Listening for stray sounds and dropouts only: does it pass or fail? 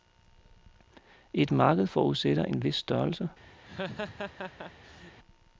fail